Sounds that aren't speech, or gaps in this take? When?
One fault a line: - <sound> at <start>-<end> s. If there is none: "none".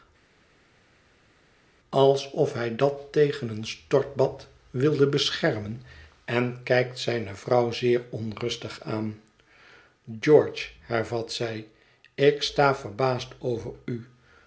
none